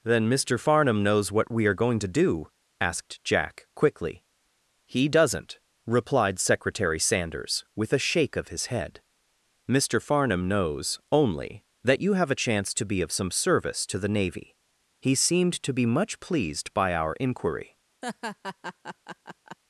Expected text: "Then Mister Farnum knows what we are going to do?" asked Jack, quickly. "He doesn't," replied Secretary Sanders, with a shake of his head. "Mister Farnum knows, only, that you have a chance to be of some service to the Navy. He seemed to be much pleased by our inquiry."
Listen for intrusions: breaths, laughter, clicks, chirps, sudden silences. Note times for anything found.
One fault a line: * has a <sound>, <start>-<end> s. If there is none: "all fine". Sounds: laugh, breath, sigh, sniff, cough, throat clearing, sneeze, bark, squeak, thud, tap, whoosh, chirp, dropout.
* has a laugh, 18.0-19.6 s